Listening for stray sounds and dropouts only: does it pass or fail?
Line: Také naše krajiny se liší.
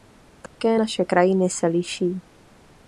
fail